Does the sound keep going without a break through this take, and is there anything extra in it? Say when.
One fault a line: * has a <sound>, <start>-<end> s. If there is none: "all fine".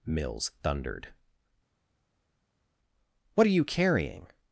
all fine